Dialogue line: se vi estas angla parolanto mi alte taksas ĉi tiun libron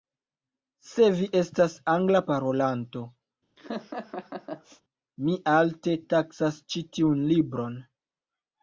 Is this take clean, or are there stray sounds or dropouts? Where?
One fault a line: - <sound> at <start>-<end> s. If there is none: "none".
- laugh at 3.6-4.8 s